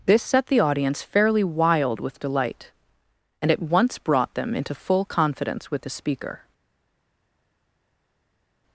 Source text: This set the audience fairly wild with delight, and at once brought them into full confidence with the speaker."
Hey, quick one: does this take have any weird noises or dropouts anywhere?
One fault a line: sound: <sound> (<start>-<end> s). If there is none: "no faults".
no faults